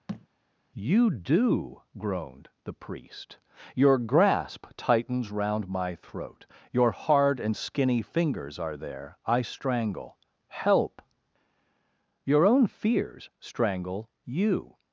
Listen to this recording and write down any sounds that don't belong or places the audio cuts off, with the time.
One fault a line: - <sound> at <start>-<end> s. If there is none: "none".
- thud at 0.1-0.3 s